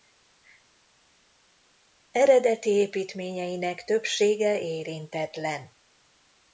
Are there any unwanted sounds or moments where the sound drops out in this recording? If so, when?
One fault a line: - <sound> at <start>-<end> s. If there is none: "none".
none